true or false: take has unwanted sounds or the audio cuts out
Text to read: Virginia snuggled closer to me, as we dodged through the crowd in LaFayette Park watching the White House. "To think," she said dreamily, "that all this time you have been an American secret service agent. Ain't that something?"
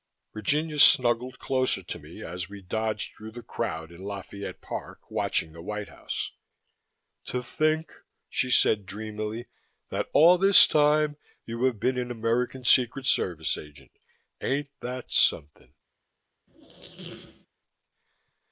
true